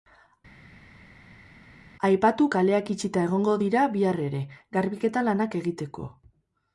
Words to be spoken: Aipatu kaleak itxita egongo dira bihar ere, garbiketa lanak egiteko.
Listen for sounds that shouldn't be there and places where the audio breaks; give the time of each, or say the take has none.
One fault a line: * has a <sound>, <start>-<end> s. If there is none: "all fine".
all fine